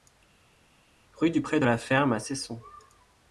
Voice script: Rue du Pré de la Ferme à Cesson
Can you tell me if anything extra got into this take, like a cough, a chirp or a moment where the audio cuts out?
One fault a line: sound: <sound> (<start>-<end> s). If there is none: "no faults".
no faults